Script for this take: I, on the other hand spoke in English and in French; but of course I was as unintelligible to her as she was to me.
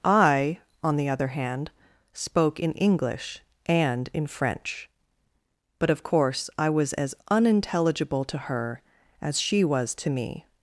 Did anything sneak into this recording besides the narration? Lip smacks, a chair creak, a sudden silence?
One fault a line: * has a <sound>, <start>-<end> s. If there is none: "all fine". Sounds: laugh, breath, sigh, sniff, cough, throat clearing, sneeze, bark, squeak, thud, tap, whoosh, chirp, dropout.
all fine